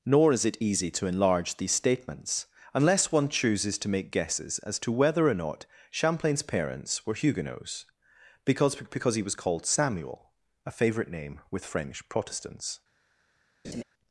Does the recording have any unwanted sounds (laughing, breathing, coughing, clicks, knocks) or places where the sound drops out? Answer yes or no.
yes